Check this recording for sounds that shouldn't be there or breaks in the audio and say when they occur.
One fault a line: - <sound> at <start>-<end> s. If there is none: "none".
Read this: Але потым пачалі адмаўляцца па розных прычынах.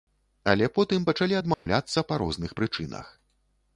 - dropout at 1.5-1.7 s